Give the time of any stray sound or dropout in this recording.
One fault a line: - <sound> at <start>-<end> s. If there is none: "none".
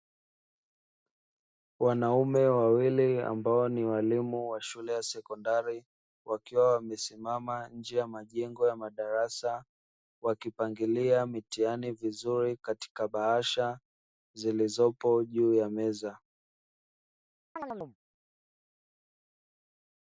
- chirp at 17.6-18.0 s